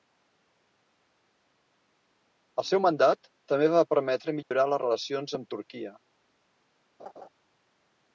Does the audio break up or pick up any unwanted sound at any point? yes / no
yes